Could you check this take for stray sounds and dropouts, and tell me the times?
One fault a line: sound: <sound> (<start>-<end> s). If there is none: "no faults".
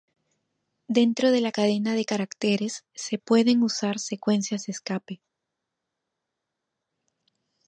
no faults